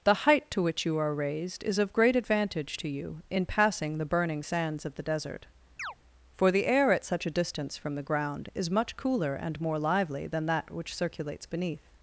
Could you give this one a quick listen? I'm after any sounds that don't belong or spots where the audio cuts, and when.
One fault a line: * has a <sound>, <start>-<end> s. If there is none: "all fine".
* has a chirp, 5.8-5.9 s